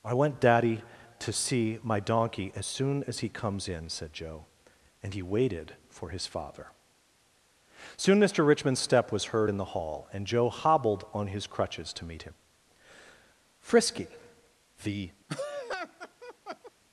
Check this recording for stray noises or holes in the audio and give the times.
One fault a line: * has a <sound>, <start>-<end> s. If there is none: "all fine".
* has a laugh, 15.3-16.7 s